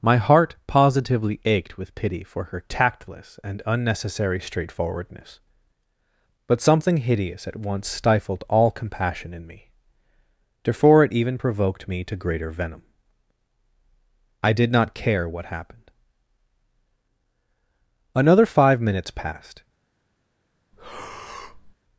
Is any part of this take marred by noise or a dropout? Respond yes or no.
yes